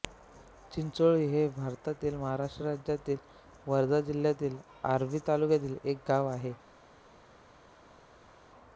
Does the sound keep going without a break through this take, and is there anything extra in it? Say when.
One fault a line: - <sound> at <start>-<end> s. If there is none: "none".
none